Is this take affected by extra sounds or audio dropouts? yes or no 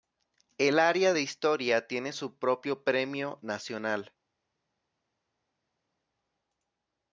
no